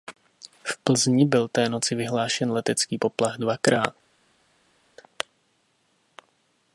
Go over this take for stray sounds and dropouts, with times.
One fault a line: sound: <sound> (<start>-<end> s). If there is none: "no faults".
no faults